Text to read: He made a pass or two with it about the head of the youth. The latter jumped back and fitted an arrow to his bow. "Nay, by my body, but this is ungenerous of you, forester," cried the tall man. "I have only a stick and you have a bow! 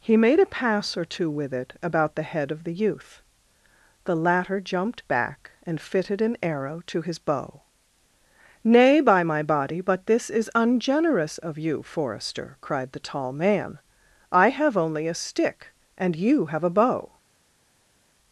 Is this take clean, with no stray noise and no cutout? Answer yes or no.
yes